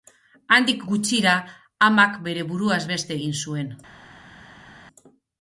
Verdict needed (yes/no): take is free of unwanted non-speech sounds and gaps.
yes